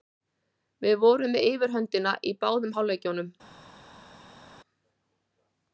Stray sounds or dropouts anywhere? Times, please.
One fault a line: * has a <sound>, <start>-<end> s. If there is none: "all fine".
all fine